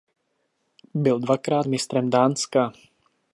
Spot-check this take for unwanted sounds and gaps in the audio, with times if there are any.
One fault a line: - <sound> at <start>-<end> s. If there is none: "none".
none